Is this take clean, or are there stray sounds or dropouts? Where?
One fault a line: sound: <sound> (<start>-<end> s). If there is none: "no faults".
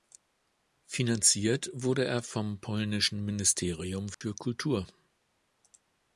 sound: dropout (4.1-4.2 s)